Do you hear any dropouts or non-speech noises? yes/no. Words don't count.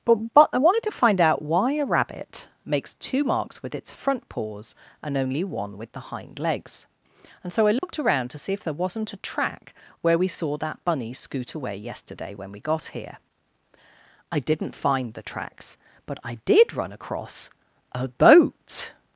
yes